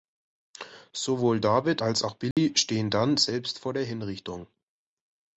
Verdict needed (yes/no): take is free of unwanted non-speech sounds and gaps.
no